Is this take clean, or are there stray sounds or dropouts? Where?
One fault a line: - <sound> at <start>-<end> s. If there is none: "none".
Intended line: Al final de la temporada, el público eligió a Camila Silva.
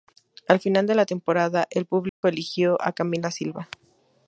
- dropout at 2.1-2.2 s